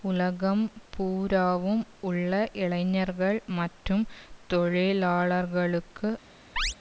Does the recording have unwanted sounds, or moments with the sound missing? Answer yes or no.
yes